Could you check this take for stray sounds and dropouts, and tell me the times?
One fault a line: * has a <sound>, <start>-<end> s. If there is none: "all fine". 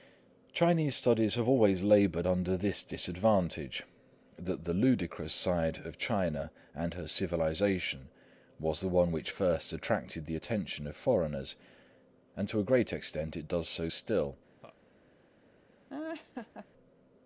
* has a laugh, 14.6-14.8 s
* has a laugh, 15.9-16.7 s